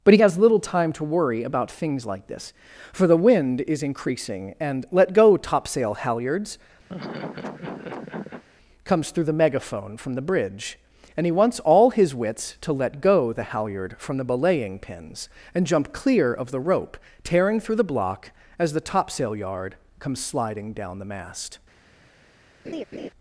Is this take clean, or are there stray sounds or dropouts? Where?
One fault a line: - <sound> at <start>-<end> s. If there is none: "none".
- laugh at 6.9-8.4 s
- laugh at 22.6-23.1 s